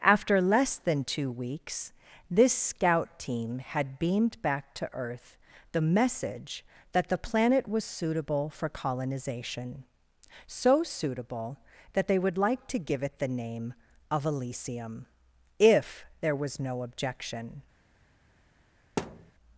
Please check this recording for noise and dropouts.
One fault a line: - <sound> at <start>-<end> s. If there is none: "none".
- thud at 19.0-19.3 s